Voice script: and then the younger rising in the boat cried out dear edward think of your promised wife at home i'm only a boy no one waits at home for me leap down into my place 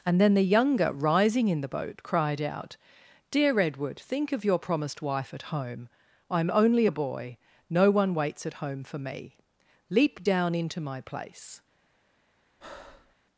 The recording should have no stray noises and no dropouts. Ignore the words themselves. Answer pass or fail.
fail